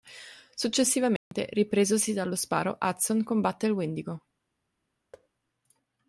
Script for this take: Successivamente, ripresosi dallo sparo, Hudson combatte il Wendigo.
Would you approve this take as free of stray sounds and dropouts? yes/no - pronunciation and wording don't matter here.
no